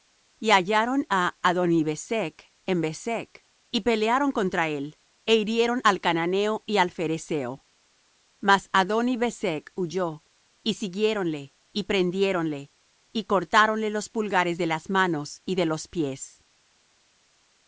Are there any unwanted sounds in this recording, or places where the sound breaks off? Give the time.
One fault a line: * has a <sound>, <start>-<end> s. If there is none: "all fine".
all fine